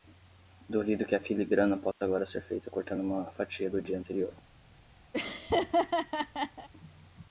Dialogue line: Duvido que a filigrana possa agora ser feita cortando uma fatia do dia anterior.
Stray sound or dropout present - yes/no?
yes